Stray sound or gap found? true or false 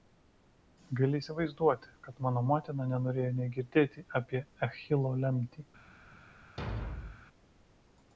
true